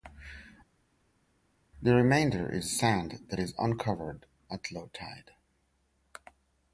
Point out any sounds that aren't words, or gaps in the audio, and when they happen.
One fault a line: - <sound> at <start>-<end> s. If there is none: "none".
none